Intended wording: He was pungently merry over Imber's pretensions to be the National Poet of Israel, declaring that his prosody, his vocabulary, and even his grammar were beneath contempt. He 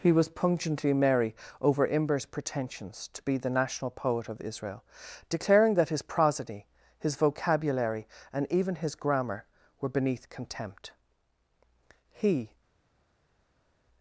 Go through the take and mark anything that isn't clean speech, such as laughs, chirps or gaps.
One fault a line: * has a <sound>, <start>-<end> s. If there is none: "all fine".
all fine